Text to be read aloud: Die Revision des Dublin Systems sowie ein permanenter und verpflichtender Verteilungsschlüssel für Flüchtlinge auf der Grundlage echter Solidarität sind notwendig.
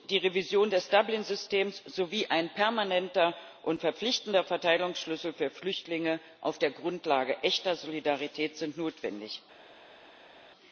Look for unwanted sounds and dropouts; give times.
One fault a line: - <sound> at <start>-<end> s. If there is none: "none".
none